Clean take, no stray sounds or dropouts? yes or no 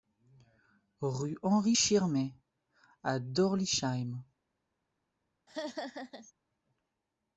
no